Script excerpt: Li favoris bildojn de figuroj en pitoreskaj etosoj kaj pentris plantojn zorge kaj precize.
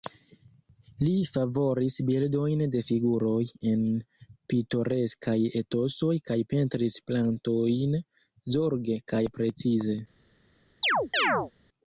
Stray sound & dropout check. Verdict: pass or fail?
fail